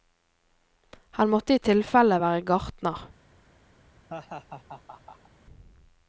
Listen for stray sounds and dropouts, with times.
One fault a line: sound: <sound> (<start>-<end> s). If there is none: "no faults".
sound: laugh (4.1-5.3 s)